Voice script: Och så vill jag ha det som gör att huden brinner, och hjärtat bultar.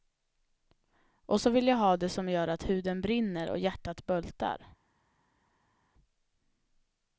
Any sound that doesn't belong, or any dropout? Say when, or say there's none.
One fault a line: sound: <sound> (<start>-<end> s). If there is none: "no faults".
no faults